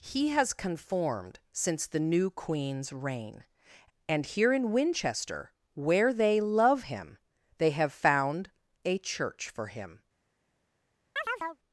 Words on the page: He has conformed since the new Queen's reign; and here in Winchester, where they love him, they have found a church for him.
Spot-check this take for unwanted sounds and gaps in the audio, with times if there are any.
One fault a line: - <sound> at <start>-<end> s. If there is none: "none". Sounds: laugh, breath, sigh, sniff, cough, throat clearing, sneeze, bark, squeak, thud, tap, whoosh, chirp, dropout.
- chirp at 11.2-11.6 s